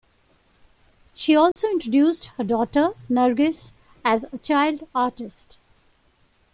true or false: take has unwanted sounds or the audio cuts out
true